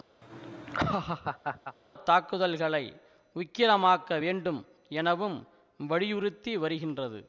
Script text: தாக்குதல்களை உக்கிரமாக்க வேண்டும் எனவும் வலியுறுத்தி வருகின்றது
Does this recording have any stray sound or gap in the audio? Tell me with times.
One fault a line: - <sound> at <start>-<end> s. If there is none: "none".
- laugh at 0.2-1.8 s